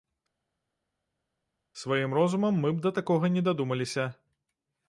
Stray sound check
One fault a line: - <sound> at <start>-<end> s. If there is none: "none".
none